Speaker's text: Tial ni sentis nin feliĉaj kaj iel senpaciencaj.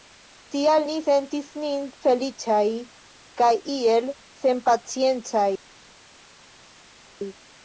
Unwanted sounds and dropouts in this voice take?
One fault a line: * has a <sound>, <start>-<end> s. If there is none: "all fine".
all fine